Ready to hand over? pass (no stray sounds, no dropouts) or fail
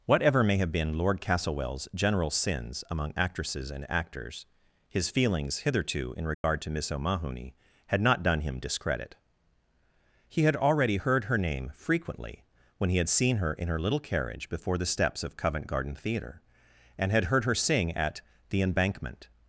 fail